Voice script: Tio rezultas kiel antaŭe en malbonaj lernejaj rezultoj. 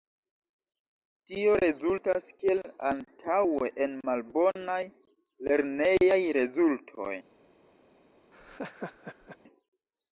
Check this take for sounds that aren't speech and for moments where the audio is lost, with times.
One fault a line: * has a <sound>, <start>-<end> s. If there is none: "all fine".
* has a laugh, 8.3-9.4 s